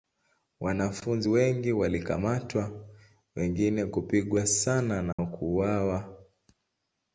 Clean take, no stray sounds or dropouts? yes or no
no